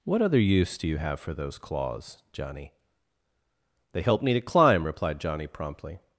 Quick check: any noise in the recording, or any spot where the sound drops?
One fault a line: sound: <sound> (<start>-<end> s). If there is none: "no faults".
no faults